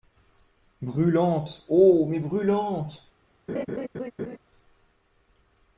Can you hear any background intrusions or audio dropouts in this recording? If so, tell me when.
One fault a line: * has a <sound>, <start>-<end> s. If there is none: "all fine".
* has a laugh, 3.5-4.4 s